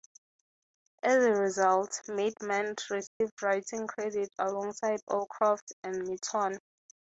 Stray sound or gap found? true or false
true